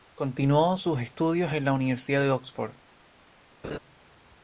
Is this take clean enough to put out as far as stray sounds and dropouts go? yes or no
no